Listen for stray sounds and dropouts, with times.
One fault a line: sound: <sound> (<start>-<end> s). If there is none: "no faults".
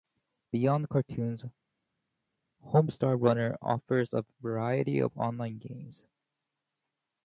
no faults